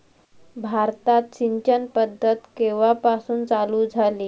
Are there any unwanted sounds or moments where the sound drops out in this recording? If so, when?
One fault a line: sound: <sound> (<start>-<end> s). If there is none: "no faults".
no faults